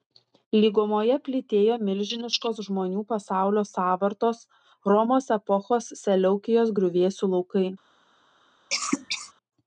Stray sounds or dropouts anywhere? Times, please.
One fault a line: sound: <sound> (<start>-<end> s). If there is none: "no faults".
sound: cough (8.7-9.3 s)